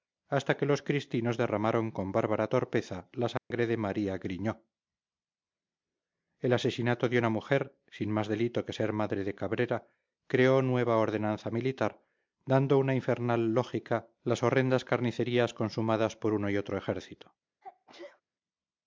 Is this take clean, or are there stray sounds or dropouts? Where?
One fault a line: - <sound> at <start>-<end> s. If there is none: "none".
- dropout at 3.4-3.5 s
- sneeze at 17.6-18.2 s